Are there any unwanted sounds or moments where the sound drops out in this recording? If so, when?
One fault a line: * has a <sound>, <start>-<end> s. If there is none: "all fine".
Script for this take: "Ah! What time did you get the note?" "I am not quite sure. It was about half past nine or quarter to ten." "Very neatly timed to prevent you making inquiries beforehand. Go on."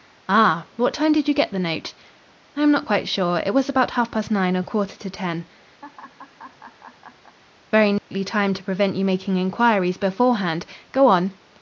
* has a laugh, 5.8-7.4 s
* has a dropout, 8.0-8.1 s